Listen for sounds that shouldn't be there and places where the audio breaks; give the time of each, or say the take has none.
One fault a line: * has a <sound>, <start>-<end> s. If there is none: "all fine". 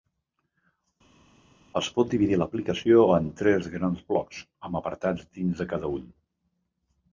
all fine